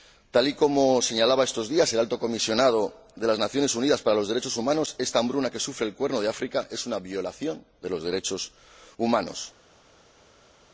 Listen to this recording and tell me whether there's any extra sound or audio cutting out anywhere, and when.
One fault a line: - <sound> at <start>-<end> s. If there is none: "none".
none